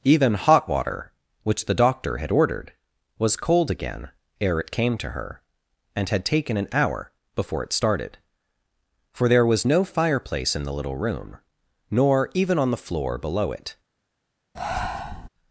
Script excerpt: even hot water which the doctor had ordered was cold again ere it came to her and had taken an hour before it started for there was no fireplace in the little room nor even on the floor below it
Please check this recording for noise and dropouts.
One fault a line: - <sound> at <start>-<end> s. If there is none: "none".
- breath at 14.5-15.3 s